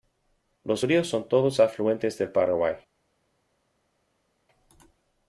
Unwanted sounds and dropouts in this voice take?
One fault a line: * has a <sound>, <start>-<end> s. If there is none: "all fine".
all fine